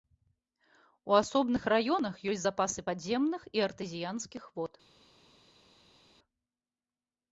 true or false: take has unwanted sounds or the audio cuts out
false